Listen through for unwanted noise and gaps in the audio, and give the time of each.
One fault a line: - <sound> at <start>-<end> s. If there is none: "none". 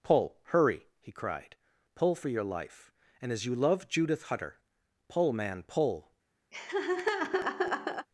- laugh at 6.5-8.1 s